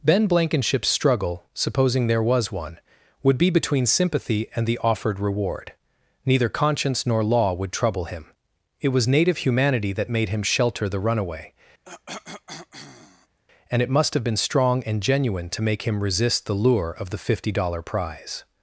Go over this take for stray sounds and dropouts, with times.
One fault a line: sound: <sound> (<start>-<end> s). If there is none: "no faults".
sound: cough (11.8-13.4 s)